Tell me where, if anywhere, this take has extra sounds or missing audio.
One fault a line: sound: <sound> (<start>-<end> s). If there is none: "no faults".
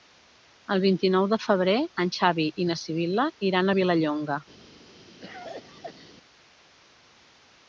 sound: cough (5.2-6.1 s)